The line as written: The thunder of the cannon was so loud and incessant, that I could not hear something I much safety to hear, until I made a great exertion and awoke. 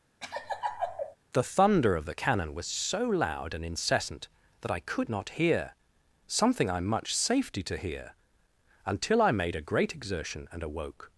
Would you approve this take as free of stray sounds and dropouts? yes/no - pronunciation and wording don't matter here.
no